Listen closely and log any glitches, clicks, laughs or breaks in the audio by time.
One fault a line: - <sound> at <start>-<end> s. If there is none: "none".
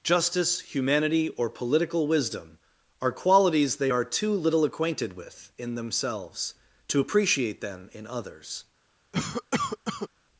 - cough at 9.1-10.1 s